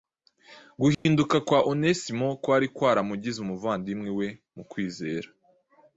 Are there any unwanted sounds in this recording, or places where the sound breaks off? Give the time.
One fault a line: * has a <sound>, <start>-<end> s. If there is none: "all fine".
* has a dropout, 0.9-1.1 s